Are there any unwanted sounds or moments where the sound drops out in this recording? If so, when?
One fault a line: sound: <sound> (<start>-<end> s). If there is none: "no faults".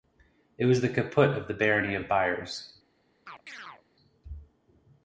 sound: chirp (3.3-3.8 s)